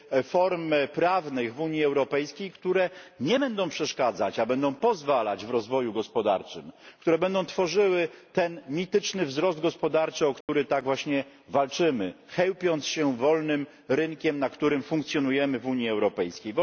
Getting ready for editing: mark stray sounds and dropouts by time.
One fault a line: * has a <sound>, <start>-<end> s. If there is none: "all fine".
* has a dropout, 10.4-10.5 s